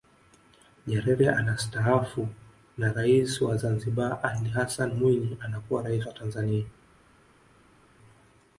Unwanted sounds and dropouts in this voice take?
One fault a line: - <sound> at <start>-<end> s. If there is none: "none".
none